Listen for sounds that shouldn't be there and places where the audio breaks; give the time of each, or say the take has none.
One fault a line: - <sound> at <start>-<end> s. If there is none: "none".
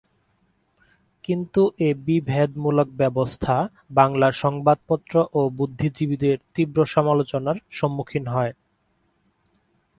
none